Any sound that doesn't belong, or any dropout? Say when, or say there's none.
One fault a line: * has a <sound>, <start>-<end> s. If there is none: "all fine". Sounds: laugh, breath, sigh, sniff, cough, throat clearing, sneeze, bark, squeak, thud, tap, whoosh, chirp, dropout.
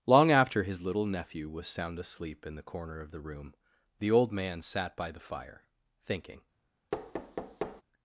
* has a thud, 6.9-7.8 s